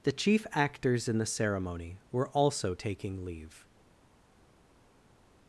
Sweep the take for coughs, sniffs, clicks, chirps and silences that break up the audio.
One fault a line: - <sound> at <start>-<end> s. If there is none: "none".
none